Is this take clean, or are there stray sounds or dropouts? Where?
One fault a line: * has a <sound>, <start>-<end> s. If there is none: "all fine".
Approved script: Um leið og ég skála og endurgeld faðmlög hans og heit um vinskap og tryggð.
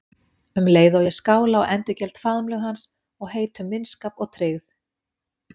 all fine